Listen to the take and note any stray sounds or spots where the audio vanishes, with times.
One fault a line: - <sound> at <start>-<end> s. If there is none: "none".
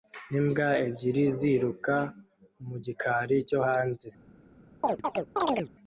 - chirp at 4.8-5.7 s